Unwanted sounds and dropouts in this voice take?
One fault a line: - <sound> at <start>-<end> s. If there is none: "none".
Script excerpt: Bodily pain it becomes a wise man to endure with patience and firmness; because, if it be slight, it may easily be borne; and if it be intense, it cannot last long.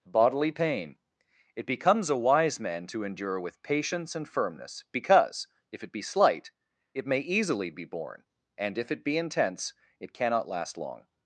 none